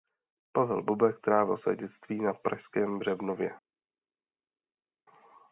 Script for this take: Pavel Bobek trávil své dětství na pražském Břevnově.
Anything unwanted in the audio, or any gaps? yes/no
no